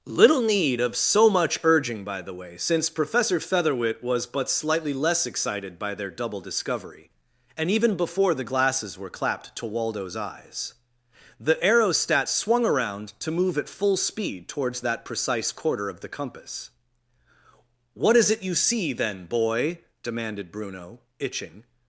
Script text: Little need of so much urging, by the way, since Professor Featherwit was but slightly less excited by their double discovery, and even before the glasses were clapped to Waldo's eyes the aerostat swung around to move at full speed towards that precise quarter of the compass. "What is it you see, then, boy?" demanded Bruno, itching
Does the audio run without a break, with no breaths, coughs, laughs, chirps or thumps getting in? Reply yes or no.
yes